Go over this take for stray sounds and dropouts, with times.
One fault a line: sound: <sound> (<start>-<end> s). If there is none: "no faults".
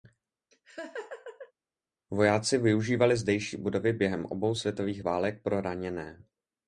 sound: laugh (0.5-1.5 s)